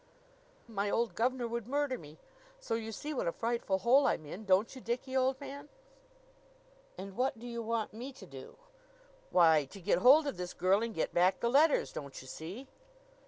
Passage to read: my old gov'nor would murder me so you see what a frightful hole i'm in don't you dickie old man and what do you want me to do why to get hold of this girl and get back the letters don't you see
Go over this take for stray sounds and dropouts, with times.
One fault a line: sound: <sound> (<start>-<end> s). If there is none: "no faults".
no faults